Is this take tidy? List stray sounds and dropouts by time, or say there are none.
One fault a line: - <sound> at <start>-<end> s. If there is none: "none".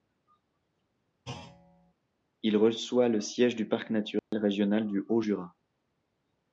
- thud at 1.3-1.9 s
- dropout at 4.2-4.3 s